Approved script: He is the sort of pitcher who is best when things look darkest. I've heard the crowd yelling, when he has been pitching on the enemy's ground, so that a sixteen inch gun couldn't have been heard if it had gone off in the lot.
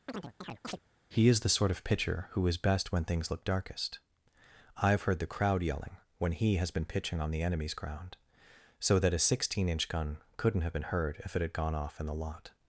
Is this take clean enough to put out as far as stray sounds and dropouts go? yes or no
no